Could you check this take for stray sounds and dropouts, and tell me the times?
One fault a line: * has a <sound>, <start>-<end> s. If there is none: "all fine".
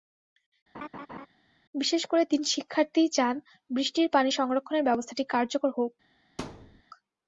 * has a laugh, 0.7-1.3 s
* has a thud, 6.4-6.8 s